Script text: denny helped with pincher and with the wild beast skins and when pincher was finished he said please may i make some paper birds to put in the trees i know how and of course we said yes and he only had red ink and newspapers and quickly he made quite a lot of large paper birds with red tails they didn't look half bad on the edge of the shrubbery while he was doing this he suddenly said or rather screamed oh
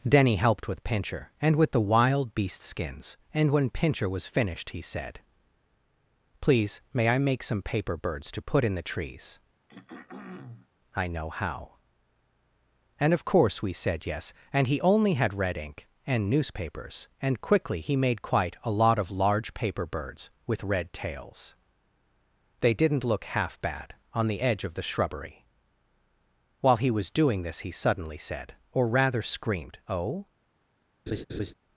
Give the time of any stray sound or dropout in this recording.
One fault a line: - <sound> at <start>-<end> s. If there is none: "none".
- throat clearing at 9.7-10.7 s
- laugh at 31.1-31.5 s